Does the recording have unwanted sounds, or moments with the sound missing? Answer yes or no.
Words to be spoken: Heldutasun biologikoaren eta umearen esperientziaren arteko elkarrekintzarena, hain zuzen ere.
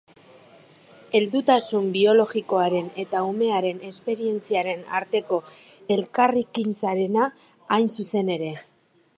no